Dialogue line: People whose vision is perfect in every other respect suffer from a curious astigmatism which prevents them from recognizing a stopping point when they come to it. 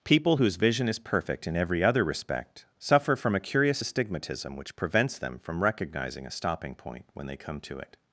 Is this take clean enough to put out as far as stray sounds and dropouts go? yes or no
yes